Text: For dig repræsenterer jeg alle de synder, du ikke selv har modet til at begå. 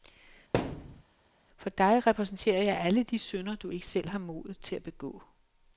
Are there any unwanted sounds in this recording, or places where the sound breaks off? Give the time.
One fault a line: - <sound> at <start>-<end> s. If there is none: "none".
- thud at 0.5-1.0 s